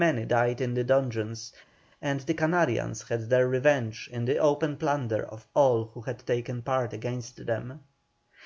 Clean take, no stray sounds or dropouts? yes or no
yes